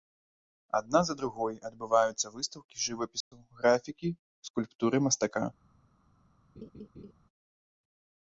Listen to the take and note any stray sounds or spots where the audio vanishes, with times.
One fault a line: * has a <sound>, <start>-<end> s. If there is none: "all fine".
* has a dropout, 3.2-3.3 s
* has a laugh, 6.6-7.1 s